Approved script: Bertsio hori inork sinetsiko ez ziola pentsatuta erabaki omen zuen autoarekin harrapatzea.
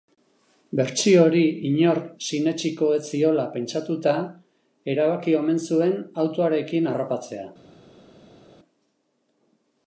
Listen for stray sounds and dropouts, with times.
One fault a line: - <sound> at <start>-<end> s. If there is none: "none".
none